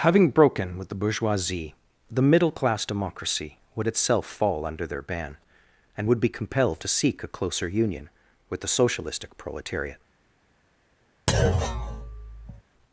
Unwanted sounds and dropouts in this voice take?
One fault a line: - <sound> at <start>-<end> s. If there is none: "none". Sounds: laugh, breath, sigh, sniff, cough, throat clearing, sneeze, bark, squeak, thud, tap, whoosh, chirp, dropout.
- thud at 11.3-12.6 s